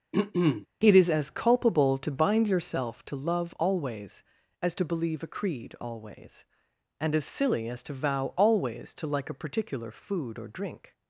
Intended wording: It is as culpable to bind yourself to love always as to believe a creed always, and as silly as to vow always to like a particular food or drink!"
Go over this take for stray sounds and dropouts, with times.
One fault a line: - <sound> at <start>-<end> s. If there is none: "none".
- throat clearing at 0.1-0.7 s